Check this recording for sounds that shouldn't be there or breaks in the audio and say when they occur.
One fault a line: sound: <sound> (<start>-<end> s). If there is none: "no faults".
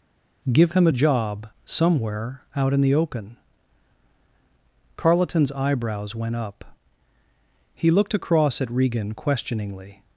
no faults